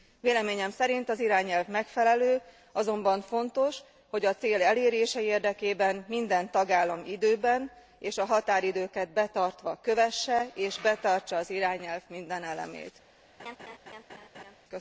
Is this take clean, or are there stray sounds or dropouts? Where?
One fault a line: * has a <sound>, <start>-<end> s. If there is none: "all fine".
* has a laugh, 13.4-14.6 s